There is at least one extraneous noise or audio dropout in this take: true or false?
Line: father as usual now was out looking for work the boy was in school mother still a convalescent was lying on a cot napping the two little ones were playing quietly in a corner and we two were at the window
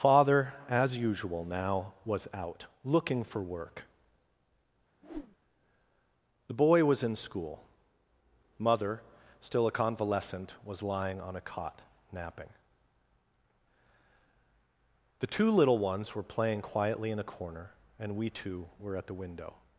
true